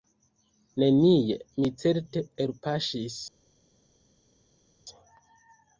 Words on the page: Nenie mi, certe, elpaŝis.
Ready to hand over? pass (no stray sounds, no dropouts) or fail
pass